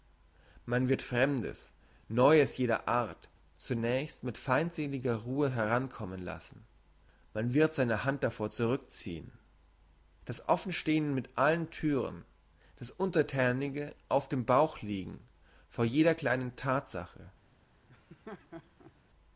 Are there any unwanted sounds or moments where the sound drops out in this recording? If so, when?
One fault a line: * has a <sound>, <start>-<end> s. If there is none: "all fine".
* has a laugh, 17.9-18.9 s